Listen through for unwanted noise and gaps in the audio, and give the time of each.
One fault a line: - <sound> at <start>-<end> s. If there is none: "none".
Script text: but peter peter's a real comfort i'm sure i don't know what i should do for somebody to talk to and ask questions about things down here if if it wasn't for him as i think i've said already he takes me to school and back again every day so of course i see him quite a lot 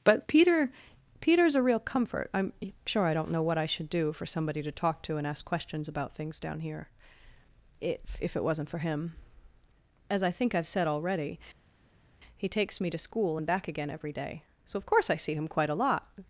none